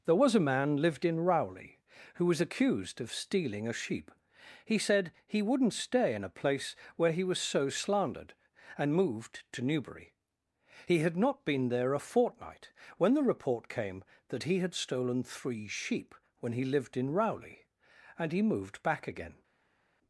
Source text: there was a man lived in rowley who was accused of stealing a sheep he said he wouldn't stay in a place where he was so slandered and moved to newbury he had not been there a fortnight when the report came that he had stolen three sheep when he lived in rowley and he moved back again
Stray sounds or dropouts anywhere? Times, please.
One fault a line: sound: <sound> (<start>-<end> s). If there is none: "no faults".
no faults